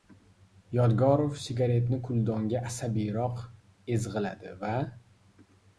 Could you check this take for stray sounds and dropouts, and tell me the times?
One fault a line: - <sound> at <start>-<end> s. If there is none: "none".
none